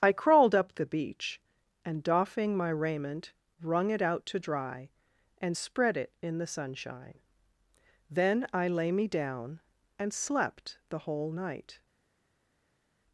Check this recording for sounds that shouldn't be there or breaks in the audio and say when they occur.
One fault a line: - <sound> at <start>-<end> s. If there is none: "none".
none